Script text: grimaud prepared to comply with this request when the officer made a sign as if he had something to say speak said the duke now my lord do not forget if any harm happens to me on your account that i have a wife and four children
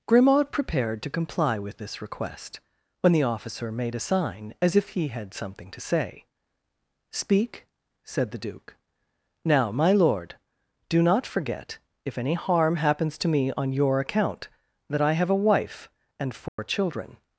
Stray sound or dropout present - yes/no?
yes